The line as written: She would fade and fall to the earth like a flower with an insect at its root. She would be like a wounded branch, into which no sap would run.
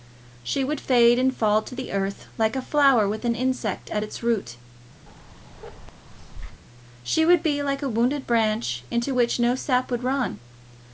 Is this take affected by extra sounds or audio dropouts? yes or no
yes